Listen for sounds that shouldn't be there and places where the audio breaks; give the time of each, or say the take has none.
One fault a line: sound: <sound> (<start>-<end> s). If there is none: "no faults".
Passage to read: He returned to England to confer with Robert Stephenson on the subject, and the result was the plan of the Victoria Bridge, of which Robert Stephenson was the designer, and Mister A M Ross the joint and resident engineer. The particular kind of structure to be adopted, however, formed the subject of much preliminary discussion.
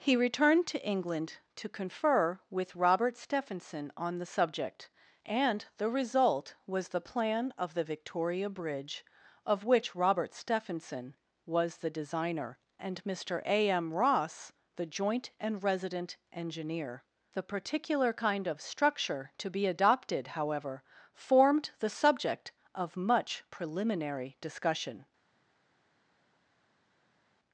no faults